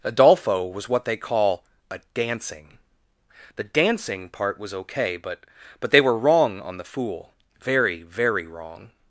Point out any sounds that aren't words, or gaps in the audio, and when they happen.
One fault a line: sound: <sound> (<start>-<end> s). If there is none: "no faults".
no faults